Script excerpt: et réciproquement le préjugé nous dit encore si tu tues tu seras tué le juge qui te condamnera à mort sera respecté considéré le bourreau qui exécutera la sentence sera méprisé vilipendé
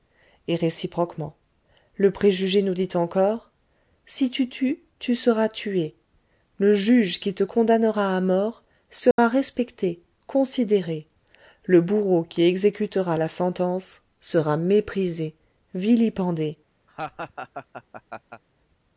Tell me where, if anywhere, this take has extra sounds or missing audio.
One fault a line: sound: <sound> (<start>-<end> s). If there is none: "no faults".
sound: dropout (9.1-9.2 s)
sound: laugh (16.9-18.4 s)